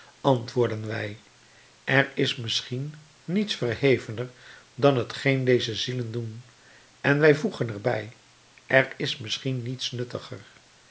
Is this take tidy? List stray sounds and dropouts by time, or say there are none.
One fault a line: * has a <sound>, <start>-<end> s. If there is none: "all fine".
all fine